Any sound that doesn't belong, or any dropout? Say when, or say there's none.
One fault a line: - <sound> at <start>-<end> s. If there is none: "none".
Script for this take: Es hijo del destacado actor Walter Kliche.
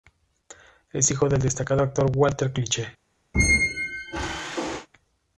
- squeak at 3.3-4.9 s